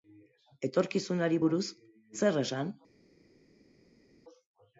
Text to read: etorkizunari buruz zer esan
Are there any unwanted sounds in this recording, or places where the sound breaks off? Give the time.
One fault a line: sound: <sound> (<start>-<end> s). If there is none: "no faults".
no faults